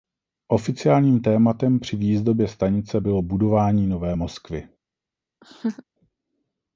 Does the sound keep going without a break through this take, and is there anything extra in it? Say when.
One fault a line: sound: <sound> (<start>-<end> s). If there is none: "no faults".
sound: laugh (5.4-5.8 s)